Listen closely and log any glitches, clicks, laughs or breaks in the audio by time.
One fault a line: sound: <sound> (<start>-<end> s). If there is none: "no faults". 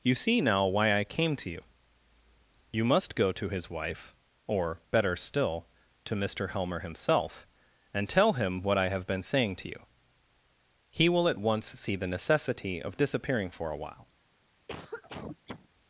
sound: cough (14.7-15.7 s)